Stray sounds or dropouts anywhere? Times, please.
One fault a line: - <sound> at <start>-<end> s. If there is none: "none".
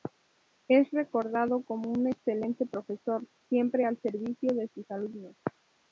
none